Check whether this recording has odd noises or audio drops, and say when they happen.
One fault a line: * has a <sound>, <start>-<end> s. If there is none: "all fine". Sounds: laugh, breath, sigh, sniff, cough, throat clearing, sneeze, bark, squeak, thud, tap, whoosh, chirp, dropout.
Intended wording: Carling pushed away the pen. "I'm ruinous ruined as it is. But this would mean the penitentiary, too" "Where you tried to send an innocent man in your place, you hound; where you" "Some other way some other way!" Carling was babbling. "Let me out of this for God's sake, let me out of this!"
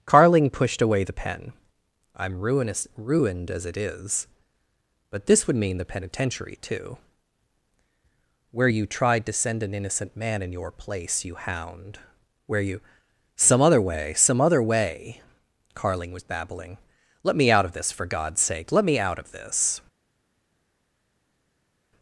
all fine